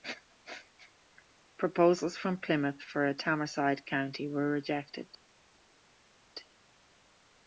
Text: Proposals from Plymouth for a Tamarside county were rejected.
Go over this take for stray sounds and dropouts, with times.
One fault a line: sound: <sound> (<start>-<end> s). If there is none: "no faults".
no faults